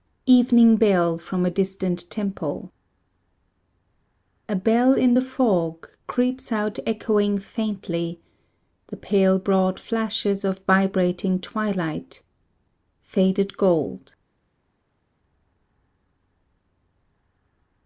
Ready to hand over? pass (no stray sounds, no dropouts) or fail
pass